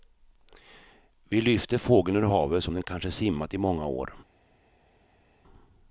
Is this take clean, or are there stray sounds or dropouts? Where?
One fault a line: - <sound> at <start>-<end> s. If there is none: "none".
none